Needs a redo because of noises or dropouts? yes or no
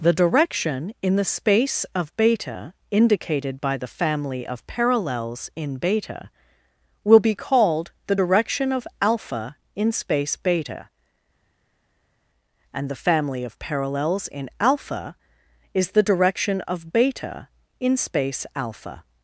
no